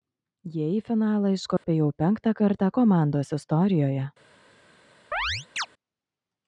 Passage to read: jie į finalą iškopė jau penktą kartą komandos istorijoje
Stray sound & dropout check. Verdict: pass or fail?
fail